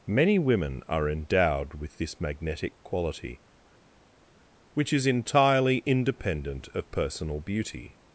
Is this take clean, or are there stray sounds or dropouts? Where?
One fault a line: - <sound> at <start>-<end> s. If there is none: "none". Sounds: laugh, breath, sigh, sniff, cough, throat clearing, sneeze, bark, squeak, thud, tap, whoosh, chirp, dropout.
none